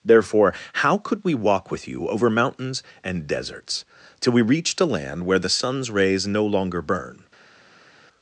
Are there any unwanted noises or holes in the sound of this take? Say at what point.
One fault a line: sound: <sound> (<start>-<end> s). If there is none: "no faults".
no faults